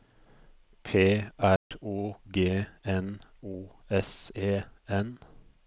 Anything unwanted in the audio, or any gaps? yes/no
yes